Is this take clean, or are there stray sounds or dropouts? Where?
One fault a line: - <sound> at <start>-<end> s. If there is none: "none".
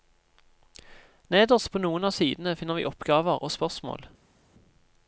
none